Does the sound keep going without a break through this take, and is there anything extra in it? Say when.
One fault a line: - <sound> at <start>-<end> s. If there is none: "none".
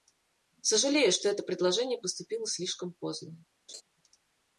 - laugh at 3.7-3.8 s